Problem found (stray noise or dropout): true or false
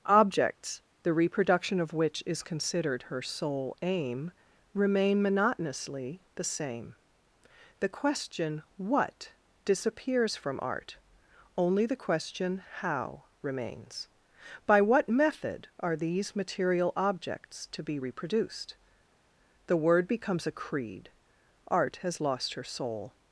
false